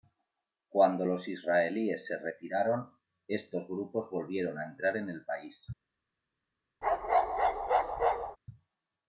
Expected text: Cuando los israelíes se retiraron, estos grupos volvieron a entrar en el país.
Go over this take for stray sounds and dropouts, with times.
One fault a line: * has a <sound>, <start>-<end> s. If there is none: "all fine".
* has a bark, 6.8-8.4 s